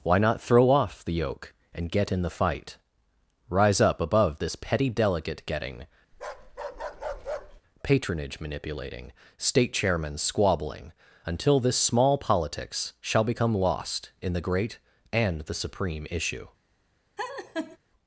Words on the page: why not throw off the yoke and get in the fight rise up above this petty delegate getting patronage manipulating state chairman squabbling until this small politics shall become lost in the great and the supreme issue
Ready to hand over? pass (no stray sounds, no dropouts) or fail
fail